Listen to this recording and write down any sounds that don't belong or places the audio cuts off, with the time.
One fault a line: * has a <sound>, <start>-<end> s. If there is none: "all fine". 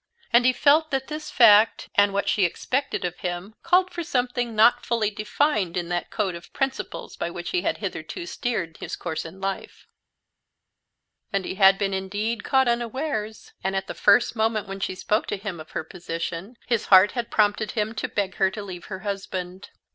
all fine